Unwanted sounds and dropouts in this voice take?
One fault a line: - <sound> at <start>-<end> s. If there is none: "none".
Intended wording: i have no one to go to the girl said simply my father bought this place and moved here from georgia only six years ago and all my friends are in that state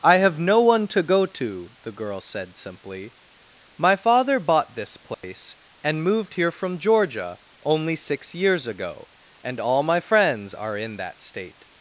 - dropout at 5.1-5.2 s